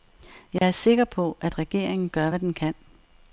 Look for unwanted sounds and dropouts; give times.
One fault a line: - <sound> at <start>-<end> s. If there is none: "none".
- dropout at 0.6-0.6 s